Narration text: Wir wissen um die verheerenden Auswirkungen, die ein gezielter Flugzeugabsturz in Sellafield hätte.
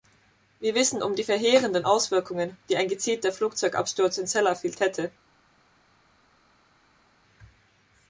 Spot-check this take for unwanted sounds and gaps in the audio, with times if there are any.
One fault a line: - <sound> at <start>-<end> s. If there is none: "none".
none